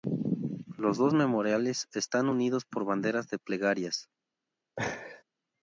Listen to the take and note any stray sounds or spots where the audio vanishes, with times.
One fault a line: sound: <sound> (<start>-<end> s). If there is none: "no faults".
sound: laugh (4.8-5.2 s)